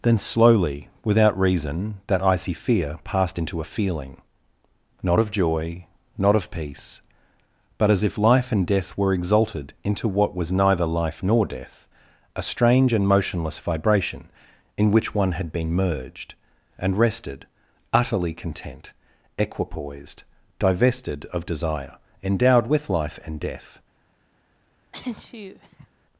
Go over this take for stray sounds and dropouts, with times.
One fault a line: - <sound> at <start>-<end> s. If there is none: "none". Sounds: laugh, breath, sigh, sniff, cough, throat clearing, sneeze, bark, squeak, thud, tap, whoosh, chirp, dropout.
- sneeze at 24.9-25.9 s